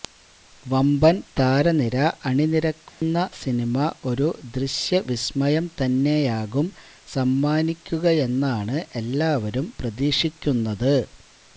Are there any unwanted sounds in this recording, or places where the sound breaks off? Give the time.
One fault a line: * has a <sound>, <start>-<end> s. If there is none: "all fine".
* has a dropout, 2.9-3.0 s